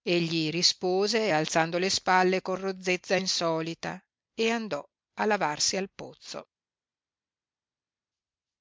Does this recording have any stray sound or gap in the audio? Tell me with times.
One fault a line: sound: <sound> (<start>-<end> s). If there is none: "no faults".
no faults